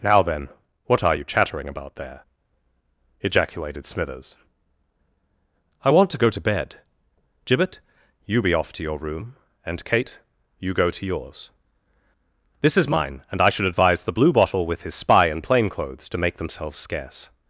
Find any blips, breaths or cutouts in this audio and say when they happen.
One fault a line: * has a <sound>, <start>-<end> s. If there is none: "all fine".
all fine